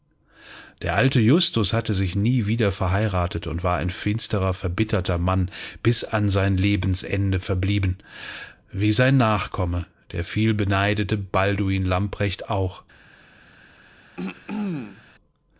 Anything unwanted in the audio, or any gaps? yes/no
yes